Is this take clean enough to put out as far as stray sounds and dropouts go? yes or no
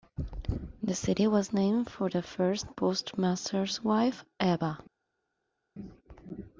yes